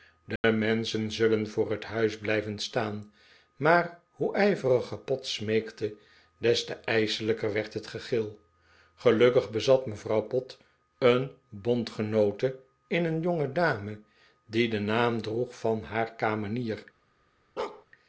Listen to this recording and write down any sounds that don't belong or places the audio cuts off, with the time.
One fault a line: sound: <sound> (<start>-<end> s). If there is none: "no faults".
sound: dropout (0.4-0.4 s)
sound: bark (17.6-17.9 s)